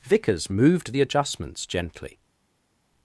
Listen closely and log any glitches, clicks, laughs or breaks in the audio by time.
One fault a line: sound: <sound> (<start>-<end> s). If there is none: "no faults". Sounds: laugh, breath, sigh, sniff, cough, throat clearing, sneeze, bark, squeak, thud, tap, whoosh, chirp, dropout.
no faults